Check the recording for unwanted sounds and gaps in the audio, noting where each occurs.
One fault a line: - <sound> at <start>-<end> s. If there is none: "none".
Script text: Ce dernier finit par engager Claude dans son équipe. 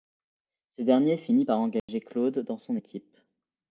- dropout at 1.8-1.9 s